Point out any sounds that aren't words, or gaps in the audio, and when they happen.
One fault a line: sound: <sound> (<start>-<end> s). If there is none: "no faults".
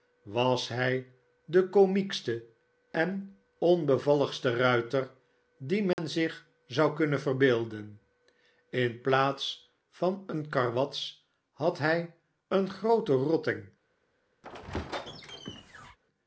sound: dropout (5.9-6.0 s)
sound: squeak (14.4-16.0 s)